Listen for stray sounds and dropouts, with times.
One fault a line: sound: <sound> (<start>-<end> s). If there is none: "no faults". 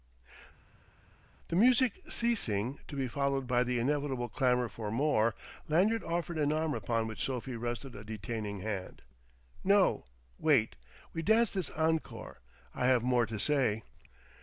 no faults